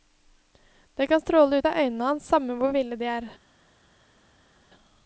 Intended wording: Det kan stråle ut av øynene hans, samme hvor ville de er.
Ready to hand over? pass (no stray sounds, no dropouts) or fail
pass